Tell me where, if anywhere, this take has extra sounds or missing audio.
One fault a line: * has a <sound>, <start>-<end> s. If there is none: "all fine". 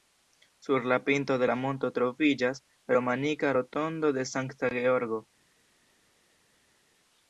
all fine